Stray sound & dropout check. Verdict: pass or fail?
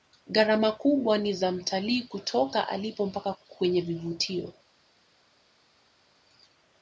pass